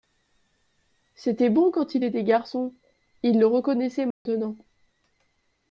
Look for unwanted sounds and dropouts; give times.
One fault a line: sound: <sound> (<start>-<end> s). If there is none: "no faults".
sound: dropout (4.1-4.3 s)